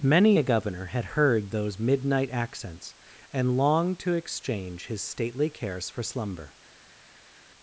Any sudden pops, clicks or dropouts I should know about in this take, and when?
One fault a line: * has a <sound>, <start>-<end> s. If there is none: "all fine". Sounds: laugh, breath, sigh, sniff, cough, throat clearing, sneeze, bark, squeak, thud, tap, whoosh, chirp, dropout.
all fine